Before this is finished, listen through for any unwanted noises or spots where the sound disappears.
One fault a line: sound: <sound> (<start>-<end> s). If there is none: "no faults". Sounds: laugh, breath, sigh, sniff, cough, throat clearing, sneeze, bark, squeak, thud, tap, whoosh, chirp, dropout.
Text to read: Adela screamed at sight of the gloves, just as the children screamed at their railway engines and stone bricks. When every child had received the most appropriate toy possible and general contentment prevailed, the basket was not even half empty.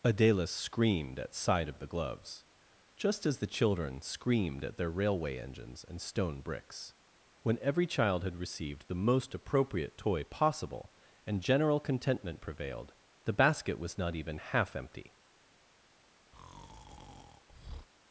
sound: breath (16.3-17.9 s)